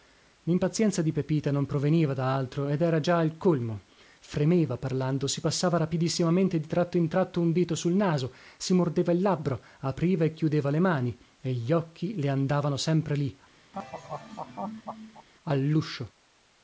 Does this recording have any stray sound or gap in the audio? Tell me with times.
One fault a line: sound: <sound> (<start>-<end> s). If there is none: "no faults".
sound: laugh (13.7-15.3 s)